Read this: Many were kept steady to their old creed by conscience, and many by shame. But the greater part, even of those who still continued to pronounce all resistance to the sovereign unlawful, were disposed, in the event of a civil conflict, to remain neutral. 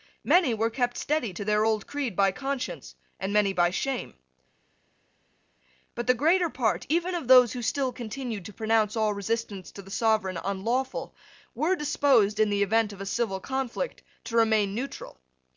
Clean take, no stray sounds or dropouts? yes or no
yes